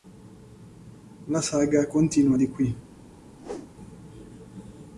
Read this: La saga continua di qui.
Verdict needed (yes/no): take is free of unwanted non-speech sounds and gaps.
no